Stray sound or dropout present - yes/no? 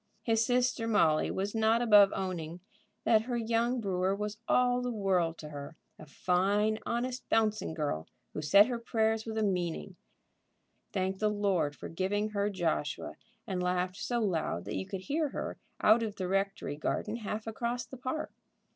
no